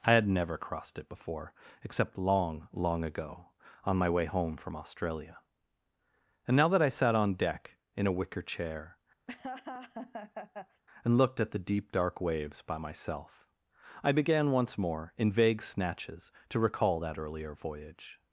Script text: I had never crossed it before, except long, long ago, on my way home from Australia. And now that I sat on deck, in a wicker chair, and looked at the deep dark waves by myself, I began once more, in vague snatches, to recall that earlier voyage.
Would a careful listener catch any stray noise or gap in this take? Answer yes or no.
yes